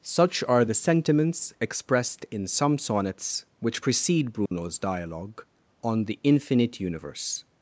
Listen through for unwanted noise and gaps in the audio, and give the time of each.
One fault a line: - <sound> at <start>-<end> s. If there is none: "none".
- dropout at 4.5-4.5 s